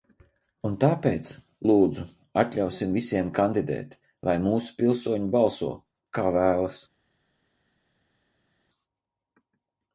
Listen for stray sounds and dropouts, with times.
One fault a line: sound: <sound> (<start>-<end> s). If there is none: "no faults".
no faults